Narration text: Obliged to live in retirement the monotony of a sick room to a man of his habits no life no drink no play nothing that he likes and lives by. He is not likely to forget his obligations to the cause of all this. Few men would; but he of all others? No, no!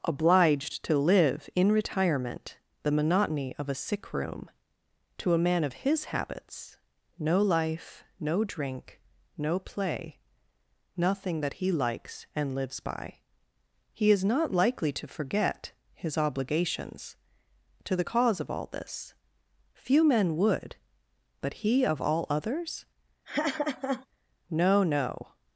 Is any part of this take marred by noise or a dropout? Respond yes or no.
yes